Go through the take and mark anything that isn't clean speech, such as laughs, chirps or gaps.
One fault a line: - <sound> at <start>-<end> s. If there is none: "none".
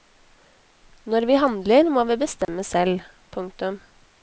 - dropout at 2.4-2.5 s